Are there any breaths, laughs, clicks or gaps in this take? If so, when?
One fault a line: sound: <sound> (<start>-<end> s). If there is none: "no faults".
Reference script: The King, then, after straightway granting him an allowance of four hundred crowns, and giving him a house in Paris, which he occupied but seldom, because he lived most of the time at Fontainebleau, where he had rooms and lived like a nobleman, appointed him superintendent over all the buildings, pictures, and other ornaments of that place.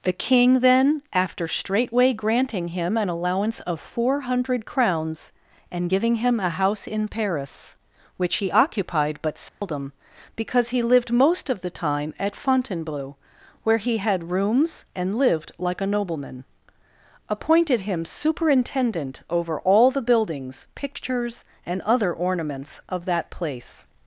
sound: dropout (9.5-9.6 s)